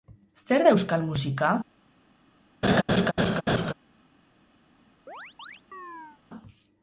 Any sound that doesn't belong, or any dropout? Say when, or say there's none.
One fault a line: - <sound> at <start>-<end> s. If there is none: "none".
- laugh at 2.6-3.7 s
- chirp at 5.1-6.2 s